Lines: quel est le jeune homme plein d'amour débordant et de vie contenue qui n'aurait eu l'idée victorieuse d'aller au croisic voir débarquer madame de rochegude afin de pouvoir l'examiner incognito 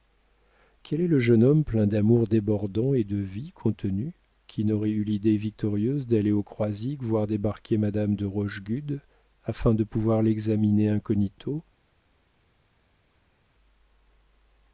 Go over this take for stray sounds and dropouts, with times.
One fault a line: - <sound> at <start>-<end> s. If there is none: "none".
none